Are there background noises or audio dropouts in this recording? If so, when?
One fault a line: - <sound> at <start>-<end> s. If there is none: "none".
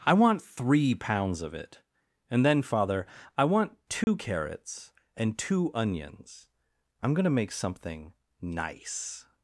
- dropout at 4.0-4.1 s